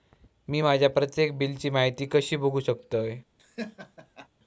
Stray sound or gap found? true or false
true